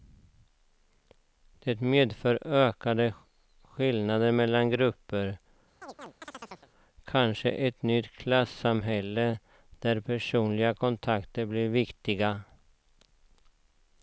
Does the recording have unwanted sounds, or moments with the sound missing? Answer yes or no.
yes